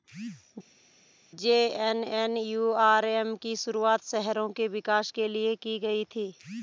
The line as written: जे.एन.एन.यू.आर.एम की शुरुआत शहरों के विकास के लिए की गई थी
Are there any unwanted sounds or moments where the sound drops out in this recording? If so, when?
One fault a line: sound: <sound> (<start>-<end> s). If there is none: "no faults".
no faults